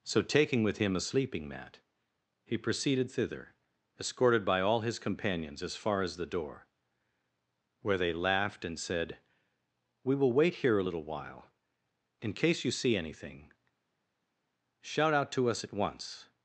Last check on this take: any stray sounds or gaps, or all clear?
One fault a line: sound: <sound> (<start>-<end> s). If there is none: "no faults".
no faults